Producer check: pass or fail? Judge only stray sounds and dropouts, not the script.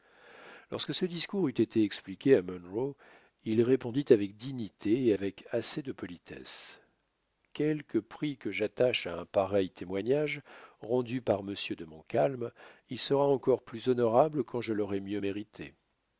pass